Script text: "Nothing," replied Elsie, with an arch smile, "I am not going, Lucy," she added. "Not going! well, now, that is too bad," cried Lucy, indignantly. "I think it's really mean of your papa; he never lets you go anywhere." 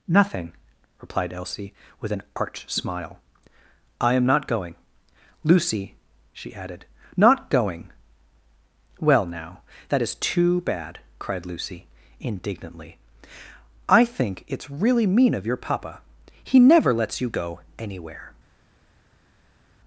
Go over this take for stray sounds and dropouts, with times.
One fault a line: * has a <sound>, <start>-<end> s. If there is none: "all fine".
all fine